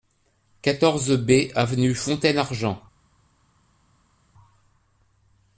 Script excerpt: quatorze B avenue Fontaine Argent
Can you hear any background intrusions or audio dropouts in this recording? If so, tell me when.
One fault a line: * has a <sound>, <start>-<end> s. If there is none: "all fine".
all fine